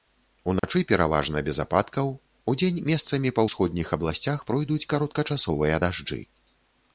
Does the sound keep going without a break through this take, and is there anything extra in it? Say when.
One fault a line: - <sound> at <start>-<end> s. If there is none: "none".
- dropout at 0.6-0.6 s